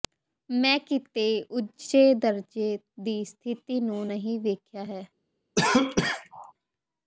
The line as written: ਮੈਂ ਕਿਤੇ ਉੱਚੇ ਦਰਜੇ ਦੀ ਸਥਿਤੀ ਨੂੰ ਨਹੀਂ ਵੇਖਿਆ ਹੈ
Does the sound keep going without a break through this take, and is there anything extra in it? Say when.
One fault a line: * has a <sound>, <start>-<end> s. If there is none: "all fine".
* has a cough, 5.6-6.5 s